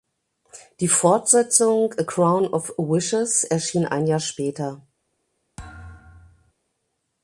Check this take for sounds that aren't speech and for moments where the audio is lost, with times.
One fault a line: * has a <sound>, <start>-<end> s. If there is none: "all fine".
* has a thud, 5.6-6.5 s